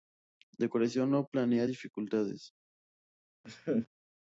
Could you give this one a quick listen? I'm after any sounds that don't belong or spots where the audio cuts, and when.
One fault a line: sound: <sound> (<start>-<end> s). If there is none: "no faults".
sound: laugh (3.4-3.9 s)